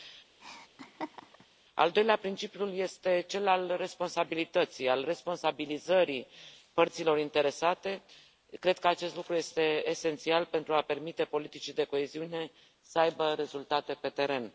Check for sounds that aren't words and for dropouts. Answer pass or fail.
fail